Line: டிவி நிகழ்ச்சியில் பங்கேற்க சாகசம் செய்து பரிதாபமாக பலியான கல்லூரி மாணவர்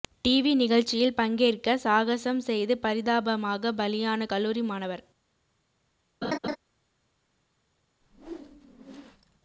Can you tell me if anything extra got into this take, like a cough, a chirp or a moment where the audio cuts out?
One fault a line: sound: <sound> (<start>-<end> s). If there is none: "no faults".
sound: laugh (6.2-6.6 s)
sound: whoosh (8.0-9.4 s)